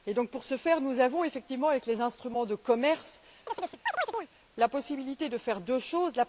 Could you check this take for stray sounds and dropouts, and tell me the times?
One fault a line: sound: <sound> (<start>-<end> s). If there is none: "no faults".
sound: chirp (3.5-4.3 s)